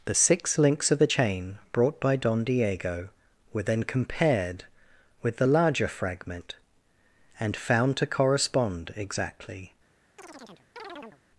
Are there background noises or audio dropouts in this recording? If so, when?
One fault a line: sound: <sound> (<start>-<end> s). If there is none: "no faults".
sound: chirp (10.2-11.2 s)